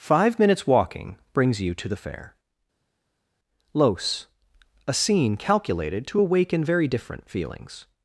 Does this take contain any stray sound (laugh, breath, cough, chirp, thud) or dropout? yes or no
no